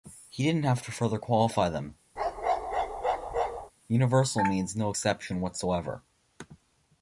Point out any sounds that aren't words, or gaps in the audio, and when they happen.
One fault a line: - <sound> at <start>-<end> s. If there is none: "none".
- bark at 2.2-3.7 s